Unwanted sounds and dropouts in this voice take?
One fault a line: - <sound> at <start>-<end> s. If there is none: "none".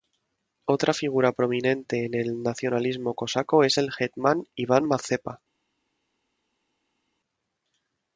none